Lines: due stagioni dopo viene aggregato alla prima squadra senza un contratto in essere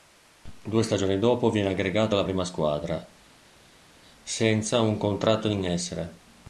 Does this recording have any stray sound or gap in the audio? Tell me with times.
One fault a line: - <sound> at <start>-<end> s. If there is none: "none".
none